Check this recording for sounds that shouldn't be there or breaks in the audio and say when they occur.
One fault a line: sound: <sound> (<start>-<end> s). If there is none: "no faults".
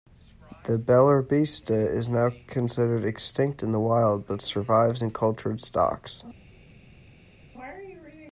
no faults